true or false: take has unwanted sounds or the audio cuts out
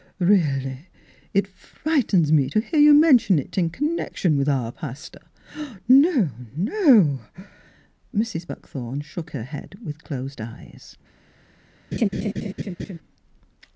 true